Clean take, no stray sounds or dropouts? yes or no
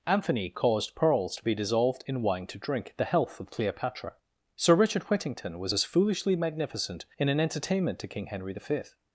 yes